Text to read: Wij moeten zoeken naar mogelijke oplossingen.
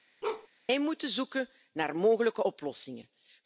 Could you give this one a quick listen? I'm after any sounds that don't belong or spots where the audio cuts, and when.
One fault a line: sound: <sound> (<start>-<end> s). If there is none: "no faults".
sound: bark (0.2-0.5 s)